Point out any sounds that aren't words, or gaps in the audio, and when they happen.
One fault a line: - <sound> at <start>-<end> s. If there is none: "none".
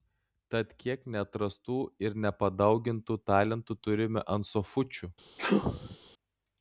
- sneeze at 5.4-6.0 s